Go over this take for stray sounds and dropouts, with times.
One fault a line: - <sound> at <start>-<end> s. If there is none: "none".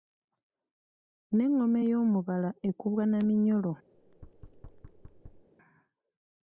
- thud at 3.9-5.5 s